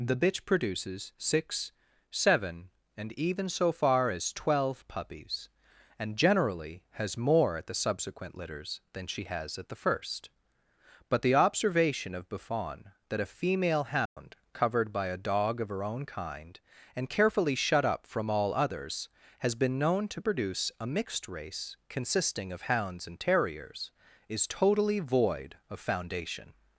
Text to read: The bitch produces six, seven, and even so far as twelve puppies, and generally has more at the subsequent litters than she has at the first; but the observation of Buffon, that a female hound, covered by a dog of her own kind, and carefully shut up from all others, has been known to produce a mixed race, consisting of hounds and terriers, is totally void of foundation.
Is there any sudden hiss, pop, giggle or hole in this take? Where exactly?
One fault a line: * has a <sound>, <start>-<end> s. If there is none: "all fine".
* has a dropout, 14.1-14.2 s